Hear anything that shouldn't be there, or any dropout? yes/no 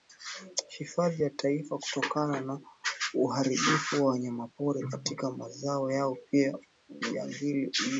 no